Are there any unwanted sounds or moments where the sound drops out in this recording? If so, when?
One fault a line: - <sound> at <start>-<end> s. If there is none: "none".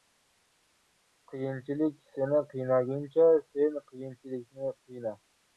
none